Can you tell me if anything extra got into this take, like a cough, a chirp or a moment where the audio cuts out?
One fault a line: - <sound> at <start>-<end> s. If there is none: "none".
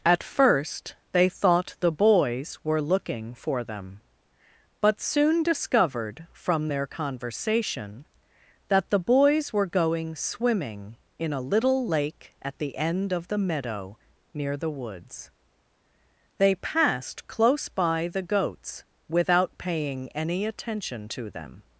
none